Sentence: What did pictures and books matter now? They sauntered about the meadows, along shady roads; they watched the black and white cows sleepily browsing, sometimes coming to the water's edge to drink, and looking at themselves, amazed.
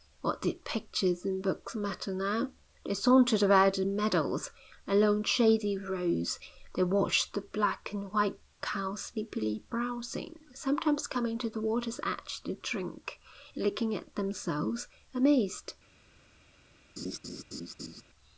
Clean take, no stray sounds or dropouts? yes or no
no